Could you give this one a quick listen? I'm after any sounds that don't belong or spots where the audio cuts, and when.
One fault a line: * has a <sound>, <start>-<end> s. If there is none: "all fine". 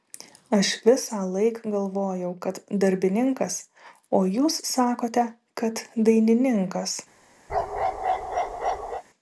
* has a bark, 7.5-9.0 s